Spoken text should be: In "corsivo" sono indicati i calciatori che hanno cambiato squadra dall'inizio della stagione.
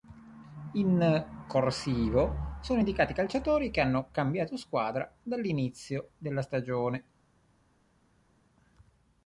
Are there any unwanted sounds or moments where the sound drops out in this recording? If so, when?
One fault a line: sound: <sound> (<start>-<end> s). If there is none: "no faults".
no faults